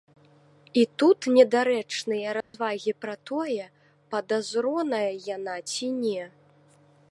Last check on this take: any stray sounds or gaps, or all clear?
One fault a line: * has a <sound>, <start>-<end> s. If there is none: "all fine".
* has a dropout, 2.4-2.5 s